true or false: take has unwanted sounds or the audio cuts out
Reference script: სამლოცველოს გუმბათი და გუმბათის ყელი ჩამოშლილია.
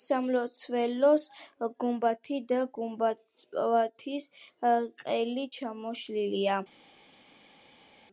false